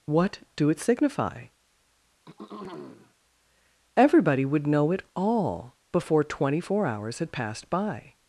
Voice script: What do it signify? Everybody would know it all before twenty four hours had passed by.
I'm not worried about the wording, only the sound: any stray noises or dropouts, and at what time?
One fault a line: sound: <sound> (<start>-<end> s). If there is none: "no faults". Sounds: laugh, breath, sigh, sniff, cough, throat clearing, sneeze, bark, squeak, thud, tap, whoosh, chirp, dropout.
sound: throat clearing (2.3-3.1 s)